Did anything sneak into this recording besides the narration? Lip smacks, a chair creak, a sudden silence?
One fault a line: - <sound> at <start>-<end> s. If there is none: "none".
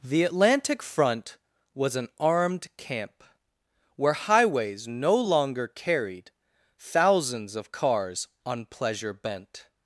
none